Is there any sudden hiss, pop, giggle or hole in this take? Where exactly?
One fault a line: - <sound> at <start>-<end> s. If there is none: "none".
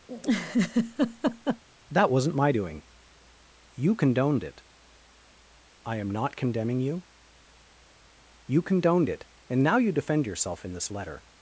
- laugh at 0.1-1.6 s